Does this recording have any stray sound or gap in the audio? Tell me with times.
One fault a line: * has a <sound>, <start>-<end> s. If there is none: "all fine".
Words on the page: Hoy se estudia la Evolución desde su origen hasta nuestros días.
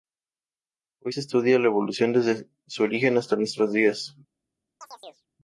* has a chirp, 4.8-5.3 s